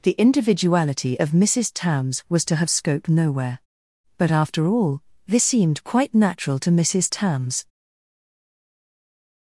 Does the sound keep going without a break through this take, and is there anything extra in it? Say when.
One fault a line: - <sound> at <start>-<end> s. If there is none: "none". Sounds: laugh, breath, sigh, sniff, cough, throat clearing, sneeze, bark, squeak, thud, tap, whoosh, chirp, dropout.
none